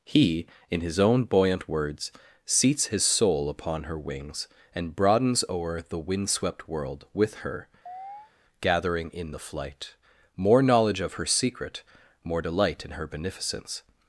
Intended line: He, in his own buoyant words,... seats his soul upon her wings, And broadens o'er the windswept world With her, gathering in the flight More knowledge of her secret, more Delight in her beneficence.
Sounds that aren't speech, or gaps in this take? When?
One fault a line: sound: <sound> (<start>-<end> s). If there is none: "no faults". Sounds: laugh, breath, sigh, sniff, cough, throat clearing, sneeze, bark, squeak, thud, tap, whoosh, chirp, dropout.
sound: chirp (7.9-8.3 s)